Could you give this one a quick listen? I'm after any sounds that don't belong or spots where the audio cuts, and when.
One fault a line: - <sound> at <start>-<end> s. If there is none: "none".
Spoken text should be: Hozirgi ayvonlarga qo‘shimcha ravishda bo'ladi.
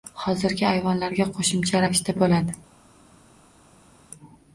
none